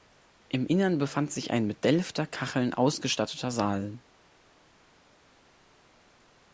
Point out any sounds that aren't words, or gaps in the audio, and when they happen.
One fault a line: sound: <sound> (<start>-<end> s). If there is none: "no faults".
no faults